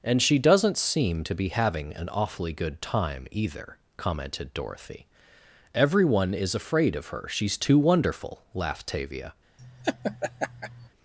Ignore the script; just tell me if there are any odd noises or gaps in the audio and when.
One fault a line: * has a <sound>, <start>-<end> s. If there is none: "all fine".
* has a laugh, 9.6-10.9 s